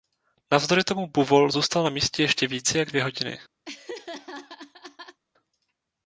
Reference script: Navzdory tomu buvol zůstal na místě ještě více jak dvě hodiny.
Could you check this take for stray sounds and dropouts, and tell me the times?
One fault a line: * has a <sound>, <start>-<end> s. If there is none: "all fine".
* has a laugh, 3.6-5.2 s